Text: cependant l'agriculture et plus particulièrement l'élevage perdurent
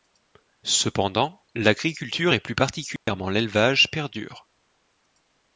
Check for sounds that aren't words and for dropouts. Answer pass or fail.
fail